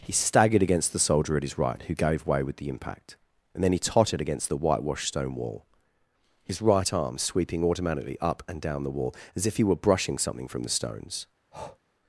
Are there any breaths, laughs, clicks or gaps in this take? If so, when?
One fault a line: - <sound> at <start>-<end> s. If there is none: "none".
- breath at 11.5-11.8 s